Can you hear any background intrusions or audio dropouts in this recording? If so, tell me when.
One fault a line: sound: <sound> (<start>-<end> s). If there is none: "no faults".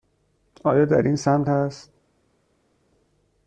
no faults